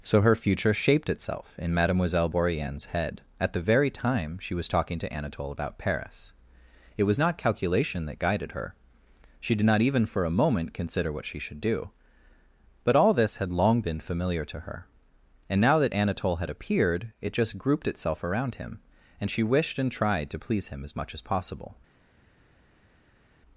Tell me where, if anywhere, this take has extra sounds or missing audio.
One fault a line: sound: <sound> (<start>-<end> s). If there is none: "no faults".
no faults